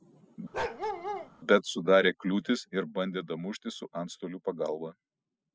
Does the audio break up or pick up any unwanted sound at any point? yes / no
yes